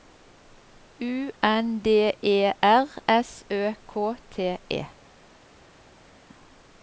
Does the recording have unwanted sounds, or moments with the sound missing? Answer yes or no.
no